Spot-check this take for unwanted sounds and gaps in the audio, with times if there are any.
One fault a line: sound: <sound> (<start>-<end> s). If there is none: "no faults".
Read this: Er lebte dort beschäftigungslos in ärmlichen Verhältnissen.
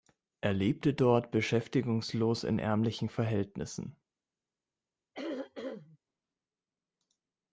sound: throat clearing (5.1-6.0 s)